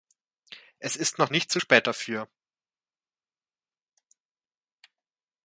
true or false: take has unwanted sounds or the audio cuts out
false